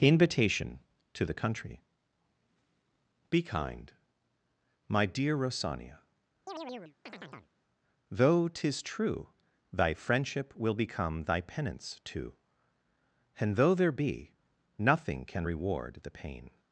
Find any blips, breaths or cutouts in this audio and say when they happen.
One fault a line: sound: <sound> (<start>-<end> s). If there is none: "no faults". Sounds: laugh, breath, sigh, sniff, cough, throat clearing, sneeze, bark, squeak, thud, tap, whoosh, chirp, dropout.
sound: chirp (6.5-7.5 s)